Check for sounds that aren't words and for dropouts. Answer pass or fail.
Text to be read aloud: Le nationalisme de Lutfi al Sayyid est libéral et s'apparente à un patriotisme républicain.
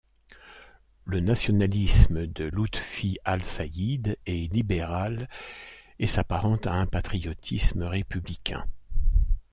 pass